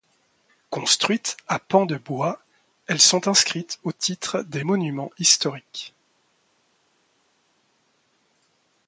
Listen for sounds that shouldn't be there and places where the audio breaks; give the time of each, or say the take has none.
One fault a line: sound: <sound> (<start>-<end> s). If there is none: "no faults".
no faults